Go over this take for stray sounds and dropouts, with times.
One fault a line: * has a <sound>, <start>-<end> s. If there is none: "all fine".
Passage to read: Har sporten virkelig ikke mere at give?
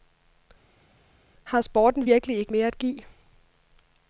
all fine